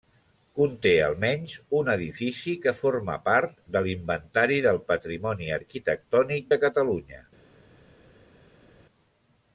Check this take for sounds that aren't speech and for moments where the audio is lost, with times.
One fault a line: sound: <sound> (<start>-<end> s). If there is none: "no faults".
no faults